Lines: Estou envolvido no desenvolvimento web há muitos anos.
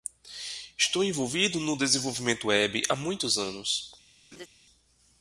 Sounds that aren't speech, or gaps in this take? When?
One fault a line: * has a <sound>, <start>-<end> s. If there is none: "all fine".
* has a laugh, 4.3-4.5 s